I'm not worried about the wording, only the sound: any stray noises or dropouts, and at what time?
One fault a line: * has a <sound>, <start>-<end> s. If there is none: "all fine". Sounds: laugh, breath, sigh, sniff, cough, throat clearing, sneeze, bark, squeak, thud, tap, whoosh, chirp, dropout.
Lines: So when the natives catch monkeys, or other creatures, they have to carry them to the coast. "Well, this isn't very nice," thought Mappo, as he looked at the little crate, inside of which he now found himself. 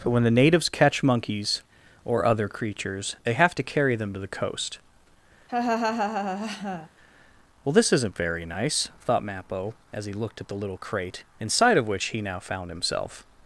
* has a laugh, 5.5-6.9 s